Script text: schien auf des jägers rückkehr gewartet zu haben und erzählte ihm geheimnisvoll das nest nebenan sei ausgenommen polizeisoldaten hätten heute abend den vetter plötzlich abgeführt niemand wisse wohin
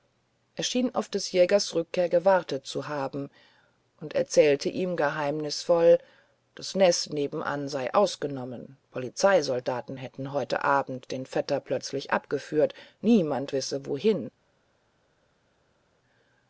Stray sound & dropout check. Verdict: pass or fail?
pass